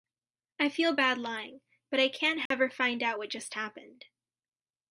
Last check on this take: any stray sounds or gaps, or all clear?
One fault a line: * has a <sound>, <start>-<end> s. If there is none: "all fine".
* has a dropout, 2.5-2.5 s